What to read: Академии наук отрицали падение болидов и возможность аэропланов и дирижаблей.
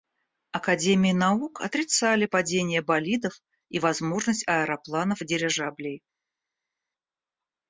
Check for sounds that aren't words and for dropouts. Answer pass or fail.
pass